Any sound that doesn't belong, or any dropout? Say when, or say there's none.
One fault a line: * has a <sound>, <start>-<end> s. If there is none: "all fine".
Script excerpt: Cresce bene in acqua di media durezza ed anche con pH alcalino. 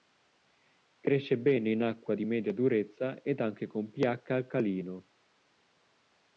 all fine